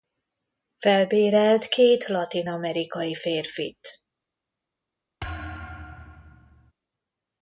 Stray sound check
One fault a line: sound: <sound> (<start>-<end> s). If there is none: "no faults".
sound: thud (5.2-6.7 s)